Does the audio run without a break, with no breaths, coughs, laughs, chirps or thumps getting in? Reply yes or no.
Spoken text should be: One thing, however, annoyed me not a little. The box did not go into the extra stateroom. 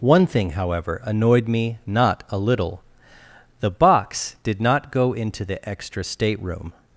yes